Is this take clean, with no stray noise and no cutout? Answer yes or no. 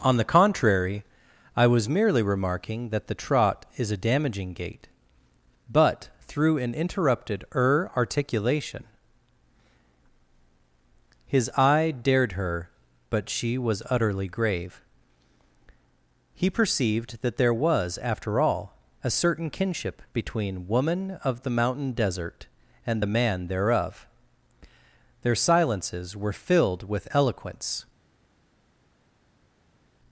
yes